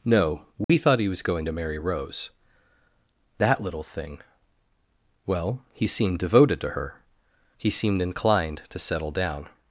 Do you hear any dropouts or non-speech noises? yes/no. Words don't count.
yes